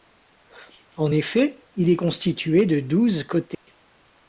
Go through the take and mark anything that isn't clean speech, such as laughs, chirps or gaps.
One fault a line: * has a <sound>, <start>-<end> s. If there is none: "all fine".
* has a dropout, 3.5-3.7 s